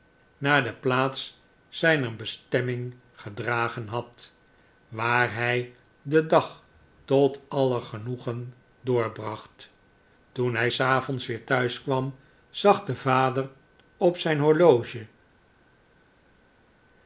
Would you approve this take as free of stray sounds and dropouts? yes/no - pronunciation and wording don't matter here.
yes